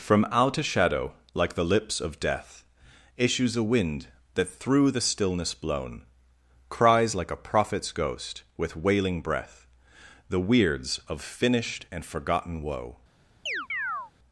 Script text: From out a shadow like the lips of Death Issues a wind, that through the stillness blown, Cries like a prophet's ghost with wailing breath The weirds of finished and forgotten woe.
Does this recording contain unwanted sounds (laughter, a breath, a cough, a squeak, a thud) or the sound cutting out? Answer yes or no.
yes